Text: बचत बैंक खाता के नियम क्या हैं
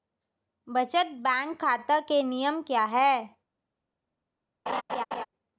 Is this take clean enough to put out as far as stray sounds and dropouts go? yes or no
no